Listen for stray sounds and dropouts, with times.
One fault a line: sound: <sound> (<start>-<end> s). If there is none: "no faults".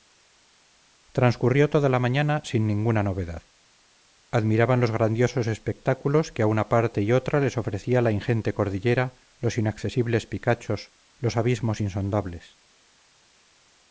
no faults